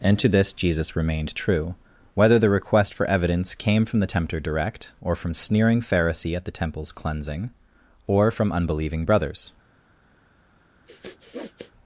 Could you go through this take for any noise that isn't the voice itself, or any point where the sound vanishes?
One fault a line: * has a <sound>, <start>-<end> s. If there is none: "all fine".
* has a sniff, 10.9-11.7 s